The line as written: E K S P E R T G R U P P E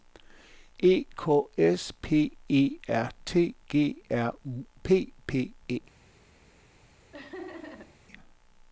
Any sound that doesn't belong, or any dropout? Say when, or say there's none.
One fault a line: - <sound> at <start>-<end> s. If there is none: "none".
- laugh at 7.1-8.0 s